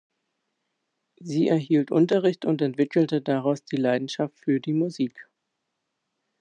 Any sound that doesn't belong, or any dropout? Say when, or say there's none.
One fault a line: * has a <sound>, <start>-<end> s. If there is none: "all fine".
all fine